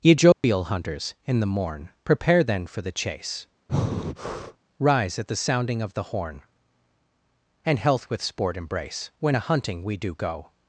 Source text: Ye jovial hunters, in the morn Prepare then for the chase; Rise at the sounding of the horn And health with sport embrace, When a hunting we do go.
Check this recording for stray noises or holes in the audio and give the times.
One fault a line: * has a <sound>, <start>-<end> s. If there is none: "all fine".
* has a dropout, 0.3-0.4 s
* has a breath, 3.7-4.6 s